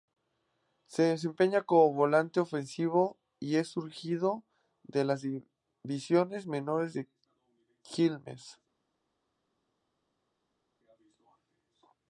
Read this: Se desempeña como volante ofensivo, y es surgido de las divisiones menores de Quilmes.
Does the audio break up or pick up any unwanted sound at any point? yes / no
no